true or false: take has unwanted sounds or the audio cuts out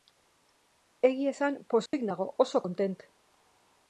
true